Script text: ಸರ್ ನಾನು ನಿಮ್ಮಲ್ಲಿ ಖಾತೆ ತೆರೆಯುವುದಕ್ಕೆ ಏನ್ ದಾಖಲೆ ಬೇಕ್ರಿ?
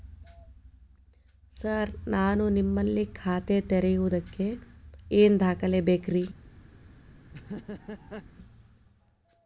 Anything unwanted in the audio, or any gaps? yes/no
yes